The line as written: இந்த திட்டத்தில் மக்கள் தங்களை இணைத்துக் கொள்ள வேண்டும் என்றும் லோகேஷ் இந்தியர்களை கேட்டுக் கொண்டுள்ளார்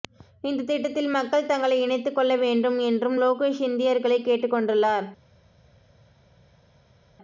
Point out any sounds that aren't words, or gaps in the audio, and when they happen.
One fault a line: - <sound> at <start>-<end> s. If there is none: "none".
none